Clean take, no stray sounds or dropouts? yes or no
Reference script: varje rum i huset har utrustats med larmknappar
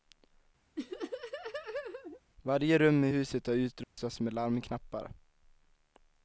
no